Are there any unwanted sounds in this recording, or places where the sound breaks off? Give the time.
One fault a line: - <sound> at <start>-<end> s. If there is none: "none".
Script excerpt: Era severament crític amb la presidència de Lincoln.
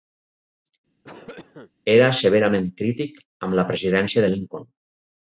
- cough at 1.0-1.7 s